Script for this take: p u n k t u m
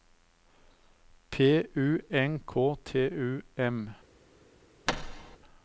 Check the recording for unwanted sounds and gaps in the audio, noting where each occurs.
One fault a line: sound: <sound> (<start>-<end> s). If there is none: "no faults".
sound: thud (4.9-5.4 s)